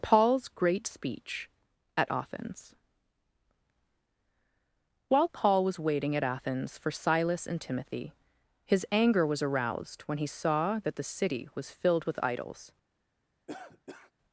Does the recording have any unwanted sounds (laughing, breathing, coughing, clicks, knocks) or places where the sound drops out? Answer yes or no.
yes